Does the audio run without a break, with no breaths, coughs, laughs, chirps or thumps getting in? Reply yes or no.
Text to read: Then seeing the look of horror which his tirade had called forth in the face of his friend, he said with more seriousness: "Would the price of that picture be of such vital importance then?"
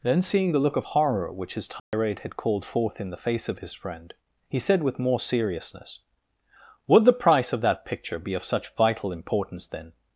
no